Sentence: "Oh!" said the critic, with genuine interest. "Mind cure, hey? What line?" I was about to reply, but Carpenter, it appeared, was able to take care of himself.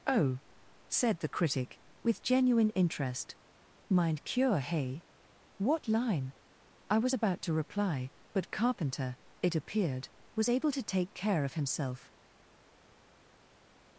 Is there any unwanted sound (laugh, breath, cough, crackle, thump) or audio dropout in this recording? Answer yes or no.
no